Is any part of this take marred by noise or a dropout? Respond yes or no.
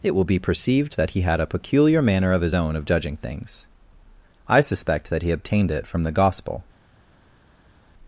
no